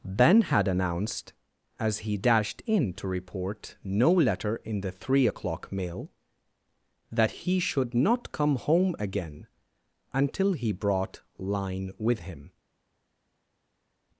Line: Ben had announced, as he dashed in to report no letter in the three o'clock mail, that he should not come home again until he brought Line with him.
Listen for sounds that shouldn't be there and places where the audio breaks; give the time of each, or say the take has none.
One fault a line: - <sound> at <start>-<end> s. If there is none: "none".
none